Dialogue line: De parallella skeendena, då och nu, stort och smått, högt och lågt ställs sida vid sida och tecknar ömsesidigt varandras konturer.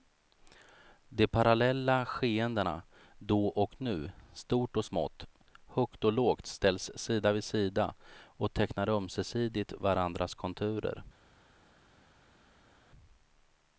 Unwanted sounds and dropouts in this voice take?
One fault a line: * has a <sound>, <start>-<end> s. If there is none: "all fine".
all fine